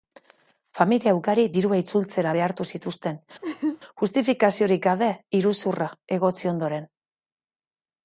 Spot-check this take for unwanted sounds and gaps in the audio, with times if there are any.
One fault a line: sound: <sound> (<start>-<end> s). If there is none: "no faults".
sound: laugh (3.4-3.8 s)